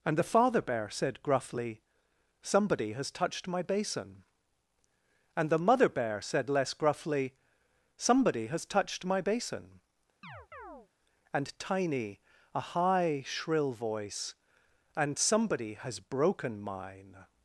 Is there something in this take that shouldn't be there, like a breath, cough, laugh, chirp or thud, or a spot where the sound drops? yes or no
yes